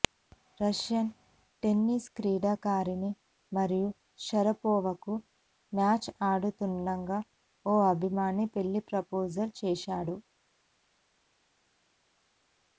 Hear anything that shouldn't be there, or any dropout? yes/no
no